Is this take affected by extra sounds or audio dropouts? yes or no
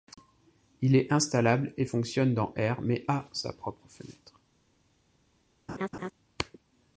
yes